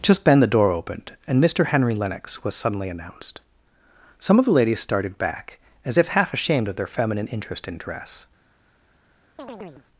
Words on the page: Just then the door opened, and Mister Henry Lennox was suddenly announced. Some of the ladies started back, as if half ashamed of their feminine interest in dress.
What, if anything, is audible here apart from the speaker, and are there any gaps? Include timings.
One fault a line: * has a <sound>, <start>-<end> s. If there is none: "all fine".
* has a chirp, 9.4-9.9 s